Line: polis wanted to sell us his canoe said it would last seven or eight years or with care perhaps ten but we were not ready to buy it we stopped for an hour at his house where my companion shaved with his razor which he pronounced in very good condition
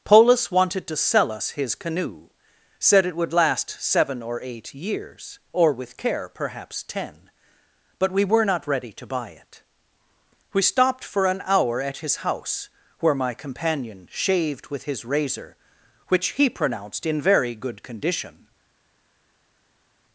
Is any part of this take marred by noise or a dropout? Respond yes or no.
no